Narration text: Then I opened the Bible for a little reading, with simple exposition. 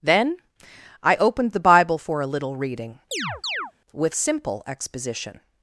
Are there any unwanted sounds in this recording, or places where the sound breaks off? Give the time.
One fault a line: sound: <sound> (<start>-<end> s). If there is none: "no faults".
sound: chirp (3.1-3.7 s)